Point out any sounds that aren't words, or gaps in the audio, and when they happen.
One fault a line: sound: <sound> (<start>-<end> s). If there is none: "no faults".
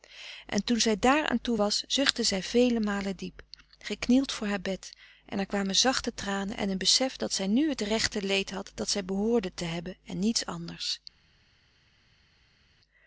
no faults